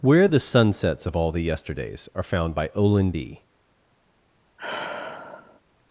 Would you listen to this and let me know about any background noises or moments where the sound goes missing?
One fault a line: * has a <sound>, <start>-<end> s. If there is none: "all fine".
* has a sigh, 4.6-5.6 s